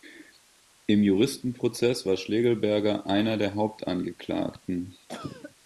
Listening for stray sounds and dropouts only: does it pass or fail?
fail